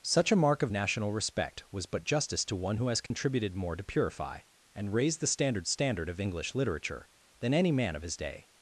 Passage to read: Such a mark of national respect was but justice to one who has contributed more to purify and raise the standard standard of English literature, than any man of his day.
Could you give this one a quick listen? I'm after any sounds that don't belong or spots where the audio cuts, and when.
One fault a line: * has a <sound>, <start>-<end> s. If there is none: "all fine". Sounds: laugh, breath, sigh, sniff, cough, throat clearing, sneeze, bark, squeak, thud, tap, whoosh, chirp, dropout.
* has a dropout, 3.1-3.1 s